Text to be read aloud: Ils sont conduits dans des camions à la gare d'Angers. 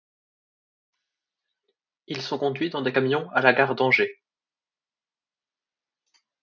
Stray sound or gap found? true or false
false